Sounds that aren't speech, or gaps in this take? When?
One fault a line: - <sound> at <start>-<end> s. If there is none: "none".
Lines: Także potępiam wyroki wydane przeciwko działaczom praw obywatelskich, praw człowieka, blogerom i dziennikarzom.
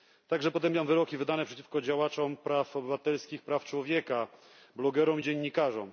none